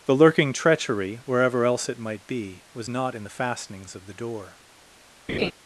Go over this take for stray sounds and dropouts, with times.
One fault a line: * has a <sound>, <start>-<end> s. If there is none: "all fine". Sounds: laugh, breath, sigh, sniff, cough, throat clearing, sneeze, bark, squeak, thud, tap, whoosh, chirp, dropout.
* has a laugh, 5.3-5.5 s